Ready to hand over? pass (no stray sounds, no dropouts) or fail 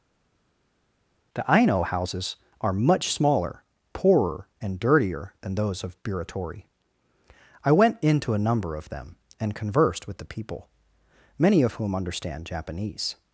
pass